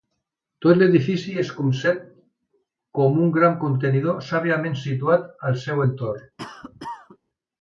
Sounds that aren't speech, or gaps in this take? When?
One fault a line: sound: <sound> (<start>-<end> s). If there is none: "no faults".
sound: cough (6.4-7.2 s)